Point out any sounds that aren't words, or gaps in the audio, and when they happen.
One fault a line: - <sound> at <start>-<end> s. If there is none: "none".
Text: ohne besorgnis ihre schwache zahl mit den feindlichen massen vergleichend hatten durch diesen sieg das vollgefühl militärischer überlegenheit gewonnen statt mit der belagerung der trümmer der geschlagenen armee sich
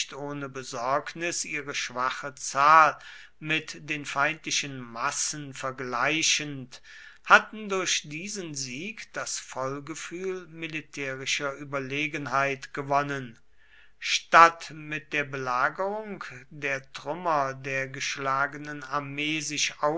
none